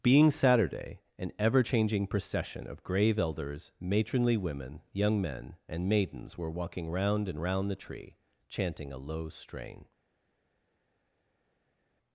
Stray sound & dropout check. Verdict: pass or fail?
pass